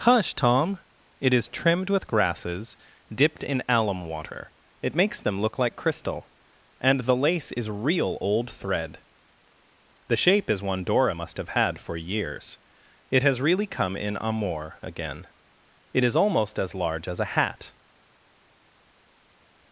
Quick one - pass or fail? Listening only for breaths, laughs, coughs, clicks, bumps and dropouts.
pass